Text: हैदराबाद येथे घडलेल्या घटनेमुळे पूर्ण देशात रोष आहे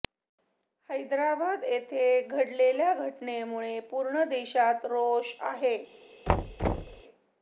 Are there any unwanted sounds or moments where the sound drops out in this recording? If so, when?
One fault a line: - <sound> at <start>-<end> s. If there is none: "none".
- thud at 6.3-7.0 s